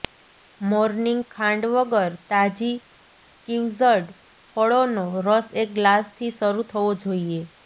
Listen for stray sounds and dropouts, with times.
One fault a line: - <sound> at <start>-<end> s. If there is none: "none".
none